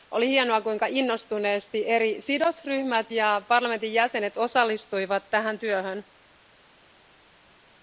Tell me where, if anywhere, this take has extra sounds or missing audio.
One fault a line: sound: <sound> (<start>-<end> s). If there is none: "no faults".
no faults